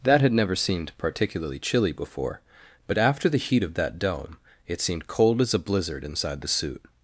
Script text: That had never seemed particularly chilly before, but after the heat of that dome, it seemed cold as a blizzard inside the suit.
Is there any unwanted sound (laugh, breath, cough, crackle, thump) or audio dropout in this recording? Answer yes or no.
no